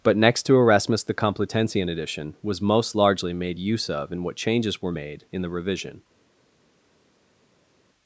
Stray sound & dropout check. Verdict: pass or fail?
pass